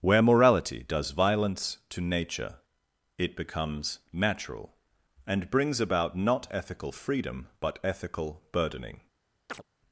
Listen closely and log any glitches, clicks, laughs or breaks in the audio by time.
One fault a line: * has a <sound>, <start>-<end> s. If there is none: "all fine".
* has a chirp, 9.5-9.6 s